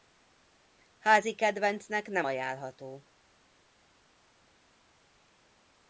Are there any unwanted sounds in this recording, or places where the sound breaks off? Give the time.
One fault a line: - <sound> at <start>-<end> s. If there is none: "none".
none